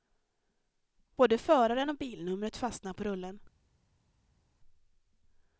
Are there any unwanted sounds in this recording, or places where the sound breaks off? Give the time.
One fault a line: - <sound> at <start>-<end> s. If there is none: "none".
none